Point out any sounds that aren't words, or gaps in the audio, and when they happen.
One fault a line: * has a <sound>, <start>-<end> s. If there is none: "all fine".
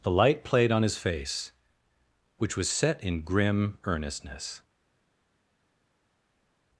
all fine